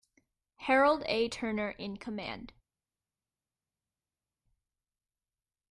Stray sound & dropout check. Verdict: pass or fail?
pass